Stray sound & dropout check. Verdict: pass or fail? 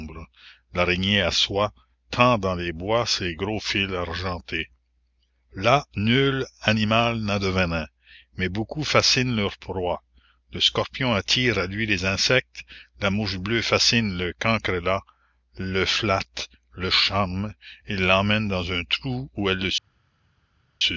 pass